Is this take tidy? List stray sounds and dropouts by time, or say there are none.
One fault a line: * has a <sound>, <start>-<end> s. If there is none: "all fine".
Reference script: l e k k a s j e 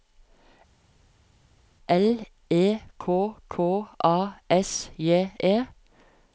all fine